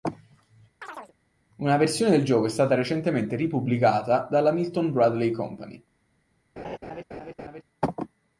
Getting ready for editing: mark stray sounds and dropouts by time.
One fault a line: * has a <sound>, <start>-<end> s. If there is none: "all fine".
* has a chirp, 0.8-1.1 s
* has a laugh, 6.6-7.6 s